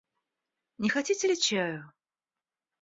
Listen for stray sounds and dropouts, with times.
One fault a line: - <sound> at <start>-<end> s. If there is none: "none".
none